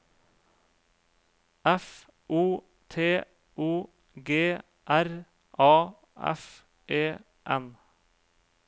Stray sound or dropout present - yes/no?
no